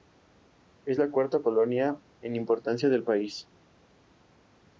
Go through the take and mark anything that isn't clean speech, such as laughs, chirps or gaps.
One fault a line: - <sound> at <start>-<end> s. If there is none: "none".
none